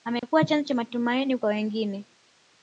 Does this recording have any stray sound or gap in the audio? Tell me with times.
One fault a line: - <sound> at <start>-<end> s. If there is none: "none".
- dropout at 0.2-0.2 s